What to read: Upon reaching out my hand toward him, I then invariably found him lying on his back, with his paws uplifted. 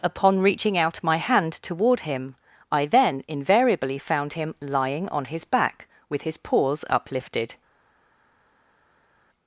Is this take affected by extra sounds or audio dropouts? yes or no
no